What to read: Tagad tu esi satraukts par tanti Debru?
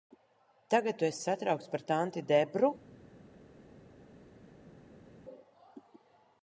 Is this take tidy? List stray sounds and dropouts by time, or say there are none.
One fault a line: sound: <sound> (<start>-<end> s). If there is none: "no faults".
no faults